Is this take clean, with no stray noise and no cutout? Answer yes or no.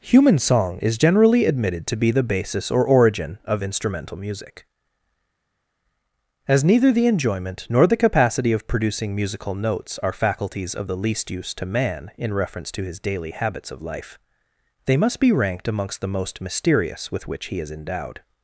yes